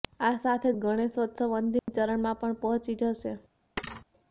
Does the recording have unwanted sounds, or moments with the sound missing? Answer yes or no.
yes